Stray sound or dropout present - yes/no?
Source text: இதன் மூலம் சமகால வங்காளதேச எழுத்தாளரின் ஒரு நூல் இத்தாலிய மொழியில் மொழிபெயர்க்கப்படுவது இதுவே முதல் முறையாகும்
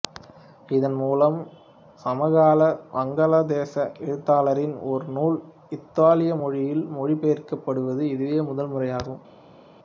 no